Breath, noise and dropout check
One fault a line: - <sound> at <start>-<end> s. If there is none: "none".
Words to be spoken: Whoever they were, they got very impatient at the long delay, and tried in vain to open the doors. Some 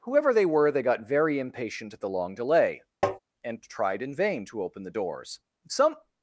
- tap at 3.0-3.2 s